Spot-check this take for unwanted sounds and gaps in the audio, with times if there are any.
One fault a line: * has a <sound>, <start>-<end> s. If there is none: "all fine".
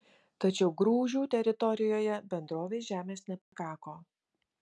* has a dropout, 3.4-3.5 s